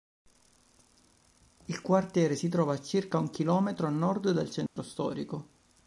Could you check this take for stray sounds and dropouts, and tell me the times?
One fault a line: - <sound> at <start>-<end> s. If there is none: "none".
- dropout at 4.7-4.8 s